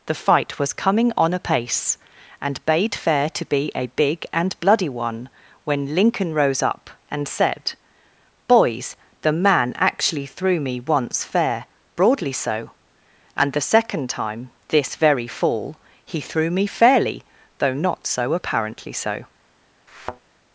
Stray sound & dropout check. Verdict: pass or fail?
fail